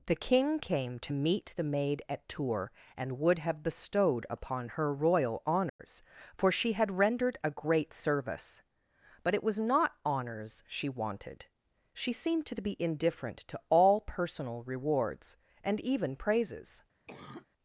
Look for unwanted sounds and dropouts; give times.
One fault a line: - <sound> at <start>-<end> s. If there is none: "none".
- dropout at 5.7-5.8 s
- cough at 17.1-17.5 s